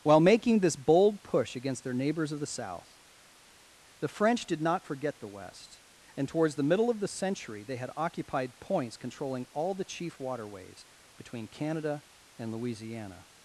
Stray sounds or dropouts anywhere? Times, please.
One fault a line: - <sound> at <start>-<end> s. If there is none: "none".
none